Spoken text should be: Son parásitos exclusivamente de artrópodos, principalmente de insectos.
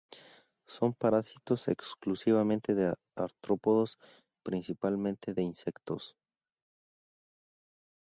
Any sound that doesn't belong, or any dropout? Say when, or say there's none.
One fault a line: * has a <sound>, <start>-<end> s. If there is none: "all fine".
all fine